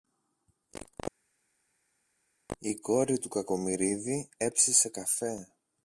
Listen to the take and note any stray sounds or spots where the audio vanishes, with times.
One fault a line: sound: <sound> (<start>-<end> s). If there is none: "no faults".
no faults